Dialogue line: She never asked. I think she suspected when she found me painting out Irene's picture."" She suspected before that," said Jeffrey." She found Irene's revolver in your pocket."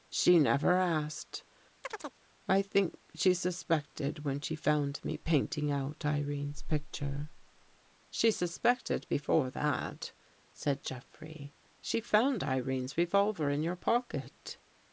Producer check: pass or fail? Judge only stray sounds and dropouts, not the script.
fail